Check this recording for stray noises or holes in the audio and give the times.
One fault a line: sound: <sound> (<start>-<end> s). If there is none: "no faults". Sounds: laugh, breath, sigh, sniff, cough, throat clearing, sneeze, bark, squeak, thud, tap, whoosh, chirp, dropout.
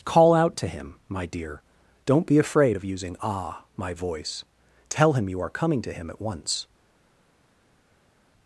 no faults